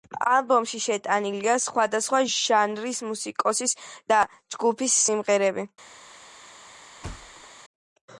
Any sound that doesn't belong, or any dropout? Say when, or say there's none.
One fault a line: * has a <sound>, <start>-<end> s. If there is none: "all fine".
* has a thud, 7.0-7.5 s